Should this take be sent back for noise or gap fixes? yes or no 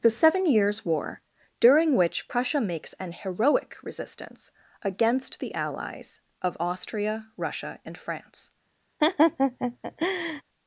yes